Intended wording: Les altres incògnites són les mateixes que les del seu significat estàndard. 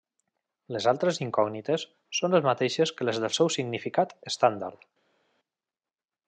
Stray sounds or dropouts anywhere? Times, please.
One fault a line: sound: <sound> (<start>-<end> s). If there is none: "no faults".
no faults